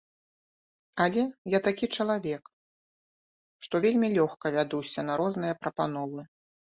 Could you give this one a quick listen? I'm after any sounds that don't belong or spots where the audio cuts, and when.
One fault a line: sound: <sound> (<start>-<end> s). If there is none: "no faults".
no faults